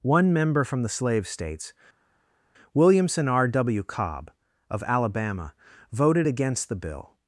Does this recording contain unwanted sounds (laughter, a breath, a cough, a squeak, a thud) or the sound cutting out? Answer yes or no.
no